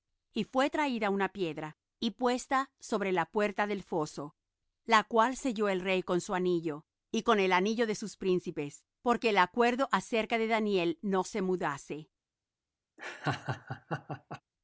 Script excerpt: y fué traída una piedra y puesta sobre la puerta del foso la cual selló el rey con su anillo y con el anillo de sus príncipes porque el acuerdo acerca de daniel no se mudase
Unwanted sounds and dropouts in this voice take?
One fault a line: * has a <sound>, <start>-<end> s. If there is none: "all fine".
* has a laugh, 13.0-14.4 s